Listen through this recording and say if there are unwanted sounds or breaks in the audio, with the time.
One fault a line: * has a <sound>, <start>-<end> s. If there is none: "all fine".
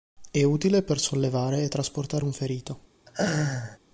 * has a laugh, 3.1-3.8 s